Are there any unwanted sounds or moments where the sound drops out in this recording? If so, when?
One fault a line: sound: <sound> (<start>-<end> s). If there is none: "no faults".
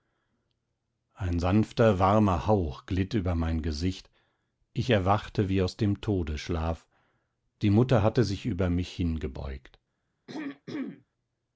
sound: throat clearing (10.3-11.0 s)